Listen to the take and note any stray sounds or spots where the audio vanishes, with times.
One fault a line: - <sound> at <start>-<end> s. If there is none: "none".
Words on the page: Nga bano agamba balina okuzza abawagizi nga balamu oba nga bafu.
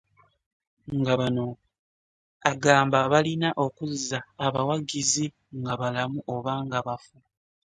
none